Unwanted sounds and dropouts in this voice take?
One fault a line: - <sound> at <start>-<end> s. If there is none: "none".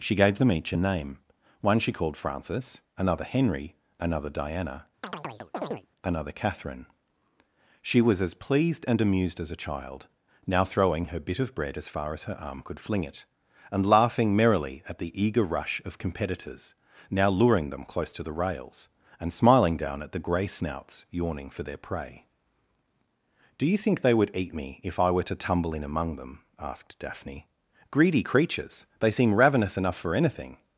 - chirp at 5.0-5.9 s